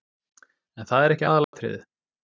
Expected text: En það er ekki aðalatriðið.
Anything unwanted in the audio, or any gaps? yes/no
yes